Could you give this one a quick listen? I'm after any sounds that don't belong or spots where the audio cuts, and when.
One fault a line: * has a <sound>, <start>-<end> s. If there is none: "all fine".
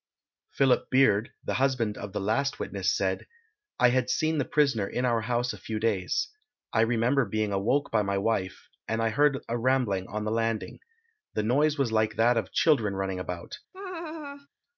* has a laugh, 13.7-14.5 s